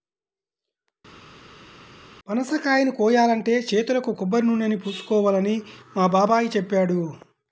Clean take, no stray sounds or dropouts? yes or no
yes